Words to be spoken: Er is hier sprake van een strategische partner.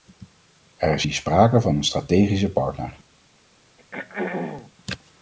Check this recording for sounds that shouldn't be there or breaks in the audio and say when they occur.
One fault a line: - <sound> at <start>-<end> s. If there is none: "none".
- throat clearing at 3.8-4.7 s